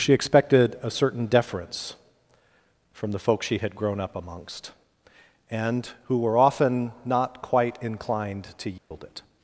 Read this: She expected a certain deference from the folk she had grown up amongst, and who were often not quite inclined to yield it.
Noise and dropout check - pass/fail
fail